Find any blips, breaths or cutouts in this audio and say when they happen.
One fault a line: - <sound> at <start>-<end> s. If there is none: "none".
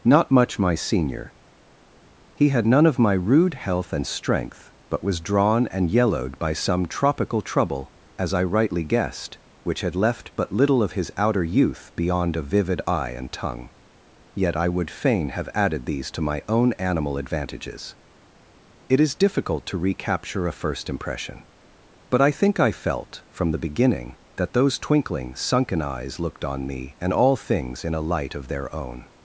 none